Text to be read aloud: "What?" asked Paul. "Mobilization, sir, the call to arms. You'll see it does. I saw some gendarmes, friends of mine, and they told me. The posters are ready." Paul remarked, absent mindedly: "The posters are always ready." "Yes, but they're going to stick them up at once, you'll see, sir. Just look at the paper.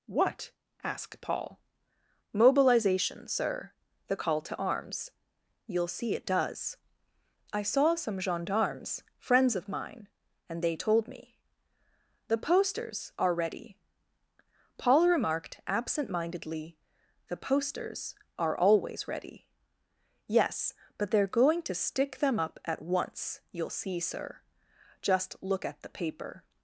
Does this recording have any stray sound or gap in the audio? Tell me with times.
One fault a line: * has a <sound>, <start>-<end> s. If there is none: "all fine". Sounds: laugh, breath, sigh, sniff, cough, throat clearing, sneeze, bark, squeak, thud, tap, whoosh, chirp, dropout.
all fine